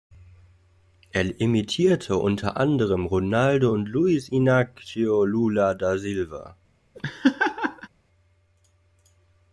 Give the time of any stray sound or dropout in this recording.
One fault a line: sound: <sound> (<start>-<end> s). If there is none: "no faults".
sound: laugh (6.9-7.9 s)